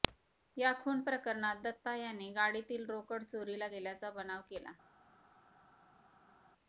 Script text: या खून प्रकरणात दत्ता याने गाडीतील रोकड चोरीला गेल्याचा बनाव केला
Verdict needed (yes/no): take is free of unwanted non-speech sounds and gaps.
yes